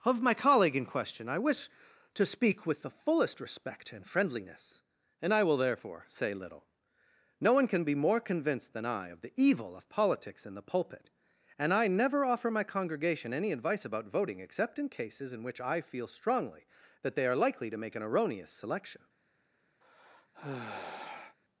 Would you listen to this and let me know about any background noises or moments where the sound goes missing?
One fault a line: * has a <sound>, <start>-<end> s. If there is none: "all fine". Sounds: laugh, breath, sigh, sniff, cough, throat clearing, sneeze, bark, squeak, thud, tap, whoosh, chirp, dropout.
* has a sigh, 19.8-21.4 s